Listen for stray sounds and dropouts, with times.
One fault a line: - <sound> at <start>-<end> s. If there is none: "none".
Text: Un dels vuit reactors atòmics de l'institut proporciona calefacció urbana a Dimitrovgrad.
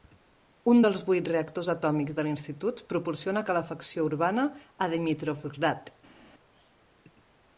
none